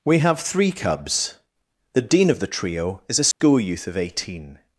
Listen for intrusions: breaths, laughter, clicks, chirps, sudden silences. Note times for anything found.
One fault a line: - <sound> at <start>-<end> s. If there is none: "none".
- dropout at 3.3-3.4 s